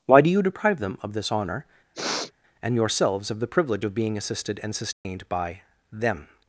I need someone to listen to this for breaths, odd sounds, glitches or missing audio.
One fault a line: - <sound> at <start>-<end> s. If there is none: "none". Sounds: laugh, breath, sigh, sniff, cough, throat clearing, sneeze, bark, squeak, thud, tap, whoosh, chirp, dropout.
- sniff at 1.9-2.3 s
- dropout at 4.9-5.0 s